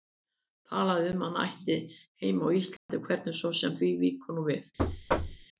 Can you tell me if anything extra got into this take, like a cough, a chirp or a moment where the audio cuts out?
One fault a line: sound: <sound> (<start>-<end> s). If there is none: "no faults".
sound: dropout (2.8-2.9 s)
sound: thud (4.8-5.5 s)